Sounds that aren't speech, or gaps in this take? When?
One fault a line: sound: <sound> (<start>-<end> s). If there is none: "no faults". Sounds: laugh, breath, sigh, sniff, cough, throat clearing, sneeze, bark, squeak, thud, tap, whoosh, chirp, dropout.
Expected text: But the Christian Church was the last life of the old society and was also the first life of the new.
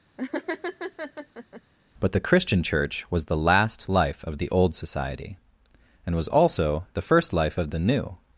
sound: laugh (0.2-1.6 s)